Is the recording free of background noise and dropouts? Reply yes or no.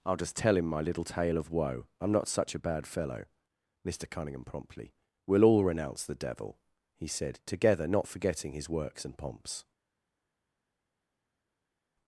yes